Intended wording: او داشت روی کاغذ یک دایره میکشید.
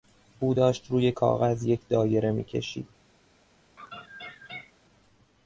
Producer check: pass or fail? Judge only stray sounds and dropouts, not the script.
fail